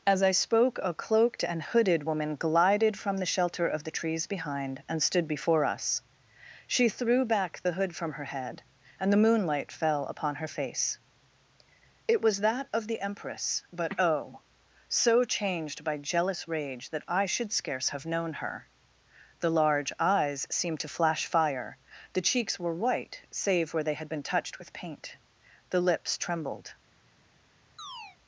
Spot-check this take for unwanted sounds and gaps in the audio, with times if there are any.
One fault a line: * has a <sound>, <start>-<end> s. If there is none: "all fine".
* has a chirp, 27.8-28.2 s